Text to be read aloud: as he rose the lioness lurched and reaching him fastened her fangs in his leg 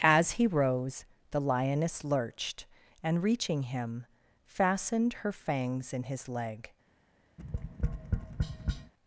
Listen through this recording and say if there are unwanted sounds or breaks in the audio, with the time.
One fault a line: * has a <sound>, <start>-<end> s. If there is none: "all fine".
* has a tap, 7.4-8.9 s